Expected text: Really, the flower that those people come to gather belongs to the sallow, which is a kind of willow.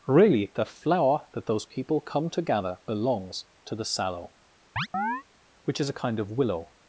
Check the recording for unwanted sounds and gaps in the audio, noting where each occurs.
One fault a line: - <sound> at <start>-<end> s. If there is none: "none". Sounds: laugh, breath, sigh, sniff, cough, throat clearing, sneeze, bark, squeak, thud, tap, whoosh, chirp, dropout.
- chirp at 4.8-5.2 s